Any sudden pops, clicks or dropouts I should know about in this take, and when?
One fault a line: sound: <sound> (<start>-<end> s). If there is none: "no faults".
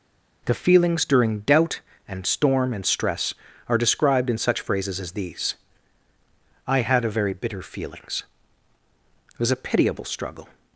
no faults